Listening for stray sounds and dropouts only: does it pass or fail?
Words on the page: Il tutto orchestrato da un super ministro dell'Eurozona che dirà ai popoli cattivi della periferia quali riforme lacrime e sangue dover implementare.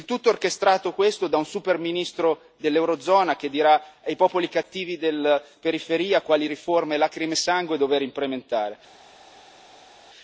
pass